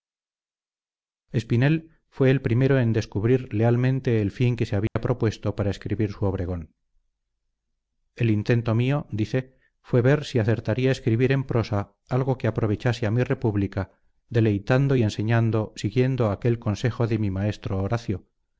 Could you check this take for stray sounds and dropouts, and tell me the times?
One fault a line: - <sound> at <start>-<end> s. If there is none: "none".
- dropout at 4.9-5.0 s